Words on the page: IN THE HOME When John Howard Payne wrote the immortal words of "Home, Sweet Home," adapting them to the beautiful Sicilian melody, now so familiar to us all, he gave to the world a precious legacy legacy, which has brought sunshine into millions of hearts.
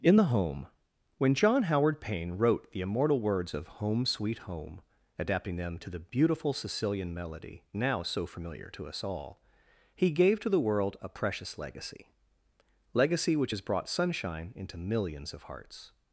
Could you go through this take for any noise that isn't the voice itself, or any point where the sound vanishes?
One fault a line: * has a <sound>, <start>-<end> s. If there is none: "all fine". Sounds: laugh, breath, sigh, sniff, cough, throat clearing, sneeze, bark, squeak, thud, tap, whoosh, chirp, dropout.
all fine